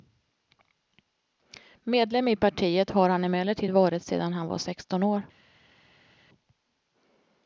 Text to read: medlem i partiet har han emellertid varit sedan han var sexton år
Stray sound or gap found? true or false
false